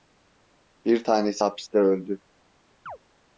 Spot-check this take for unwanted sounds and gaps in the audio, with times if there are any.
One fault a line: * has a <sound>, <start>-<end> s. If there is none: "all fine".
* has a chirp, 2.9-3.0 s